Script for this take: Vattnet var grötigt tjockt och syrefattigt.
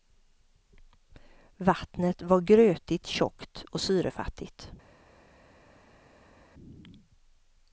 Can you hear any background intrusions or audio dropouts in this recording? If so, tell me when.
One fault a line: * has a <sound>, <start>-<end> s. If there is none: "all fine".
all fine